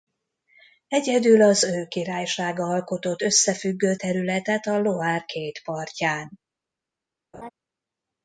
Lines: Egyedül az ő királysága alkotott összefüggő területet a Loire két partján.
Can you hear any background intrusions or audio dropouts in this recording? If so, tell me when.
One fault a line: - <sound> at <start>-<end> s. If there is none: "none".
- laugh at 7.3-7.5 s